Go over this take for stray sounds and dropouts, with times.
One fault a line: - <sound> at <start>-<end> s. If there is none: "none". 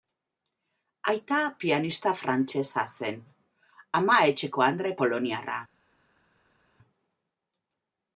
none